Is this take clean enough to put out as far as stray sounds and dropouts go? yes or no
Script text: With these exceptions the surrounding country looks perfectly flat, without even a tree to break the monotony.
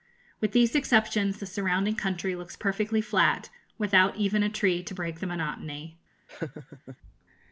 no